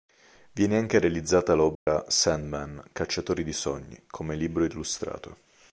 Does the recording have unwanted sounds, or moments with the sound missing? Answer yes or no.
yes